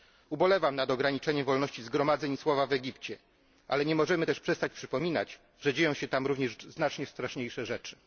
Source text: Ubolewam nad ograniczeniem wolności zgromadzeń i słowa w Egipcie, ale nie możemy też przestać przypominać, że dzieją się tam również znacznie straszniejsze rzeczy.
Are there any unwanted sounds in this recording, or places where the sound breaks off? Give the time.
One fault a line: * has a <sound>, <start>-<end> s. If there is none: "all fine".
all fine